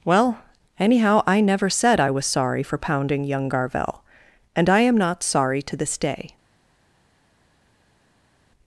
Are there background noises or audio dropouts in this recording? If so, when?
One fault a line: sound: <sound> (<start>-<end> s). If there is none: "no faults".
no faults